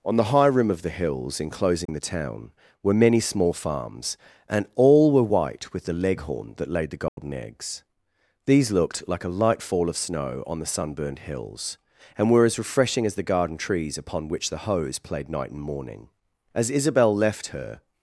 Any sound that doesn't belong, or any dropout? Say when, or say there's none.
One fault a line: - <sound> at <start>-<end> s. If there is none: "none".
- dropout at 1.9-1.9 s
- dropout at 7.1-7.2 s